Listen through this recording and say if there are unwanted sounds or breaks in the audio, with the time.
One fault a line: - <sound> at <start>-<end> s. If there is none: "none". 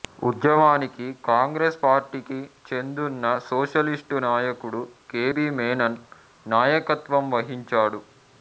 none